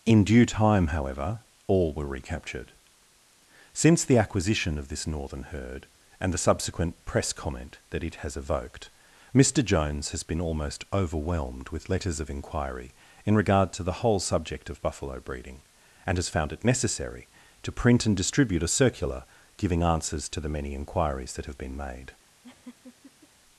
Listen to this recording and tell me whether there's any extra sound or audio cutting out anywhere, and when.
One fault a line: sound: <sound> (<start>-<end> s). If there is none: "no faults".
sound: laugh (22.4-23.3 s)